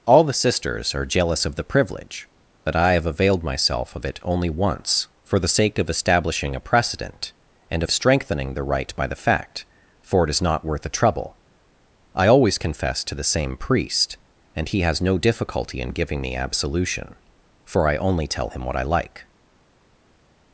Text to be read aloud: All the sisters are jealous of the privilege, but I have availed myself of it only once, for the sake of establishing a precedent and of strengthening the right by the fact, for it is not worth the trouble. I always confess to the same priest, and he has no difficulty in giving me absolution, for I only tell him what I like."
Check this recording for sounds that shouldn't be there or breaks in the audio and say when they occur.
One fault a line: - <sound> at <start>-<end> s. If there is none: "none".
none